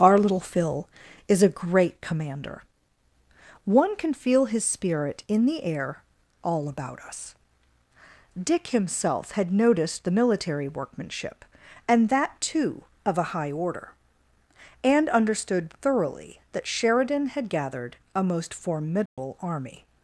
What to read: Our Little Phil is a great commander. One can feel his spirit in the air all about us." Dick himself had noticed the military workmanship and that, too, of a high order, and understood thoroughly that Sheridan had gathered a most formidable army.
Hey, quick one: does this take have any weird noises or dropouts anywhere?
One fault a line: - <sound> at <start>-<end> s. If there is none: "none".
- dropout at 19.1-19.2 s